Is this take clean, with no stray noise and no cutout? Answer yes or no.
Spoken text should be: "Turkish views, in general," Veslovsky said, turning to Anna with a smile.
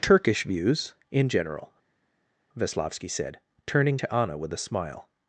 yes